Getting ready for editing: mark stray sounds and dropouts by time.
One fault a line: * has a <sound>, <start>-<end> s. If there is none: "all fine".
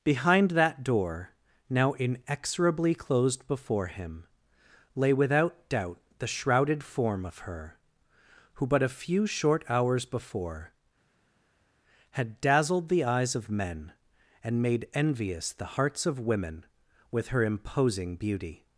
all fine